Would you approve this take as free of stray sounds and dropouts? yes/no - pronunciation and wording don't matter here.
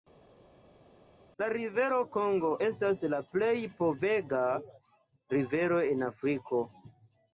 yes